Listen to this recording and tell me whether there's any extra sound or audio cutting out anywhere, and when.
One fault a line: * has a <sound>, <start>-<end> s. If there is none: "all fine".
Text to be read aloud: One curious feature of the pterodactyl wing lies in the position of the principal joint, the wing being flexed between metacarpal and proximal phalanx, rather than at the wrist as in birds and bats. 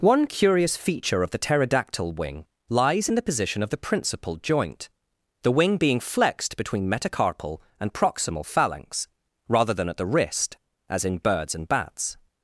all fine